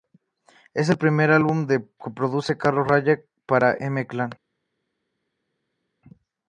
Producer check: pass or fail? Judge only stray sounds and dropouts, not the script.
pass